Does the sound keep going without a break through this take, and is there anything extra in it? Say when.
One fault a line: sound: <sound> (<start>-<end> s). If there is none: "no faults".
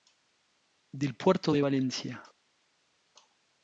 no faults